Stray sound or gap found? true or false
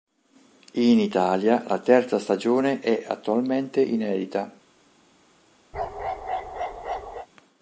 true